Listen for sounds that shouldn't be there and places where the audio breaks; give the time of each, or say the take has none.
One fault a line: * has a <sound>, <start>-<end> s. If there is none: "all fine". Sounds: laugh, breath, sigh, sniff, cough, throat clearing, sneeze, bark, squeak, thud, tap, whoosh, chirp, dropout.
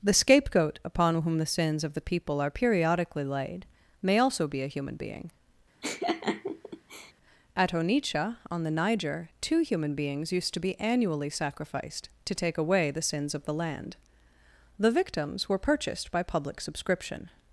* has a laugh, 5.8-7.1 s